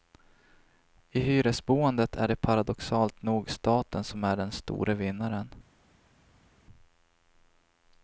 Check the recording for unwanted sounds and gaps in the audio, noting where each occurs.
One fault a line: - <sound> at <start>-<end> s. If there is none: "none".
none